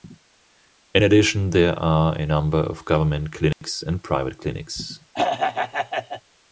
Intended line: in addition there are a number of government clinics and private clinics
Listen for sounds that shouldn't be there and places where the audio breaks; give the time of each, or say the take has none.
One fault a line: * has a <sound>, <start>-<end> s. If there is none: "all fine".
* has a dropout, 3.5-3.6 s
* has a throat clearing, 5.1-6.2 s